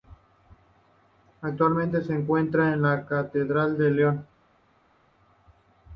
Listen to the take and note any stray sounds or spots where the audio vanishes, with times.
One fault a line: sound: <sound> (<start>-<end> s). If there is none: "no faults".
no faults